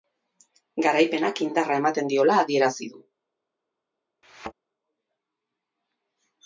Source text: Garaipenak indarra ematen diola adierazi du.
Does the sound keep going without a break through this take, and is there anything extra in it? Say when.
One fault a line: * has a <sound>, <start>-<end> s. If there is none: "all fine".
* has a thud, 4.2-4.5 s